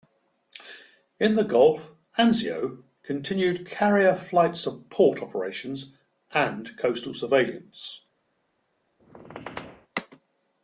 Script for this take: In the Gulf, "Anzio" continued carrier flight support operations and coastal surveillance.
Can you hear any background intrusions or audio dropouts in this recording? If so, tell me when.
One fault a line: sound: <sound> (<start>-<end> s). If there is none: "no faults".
sound: squeak (9.0-9.9 s)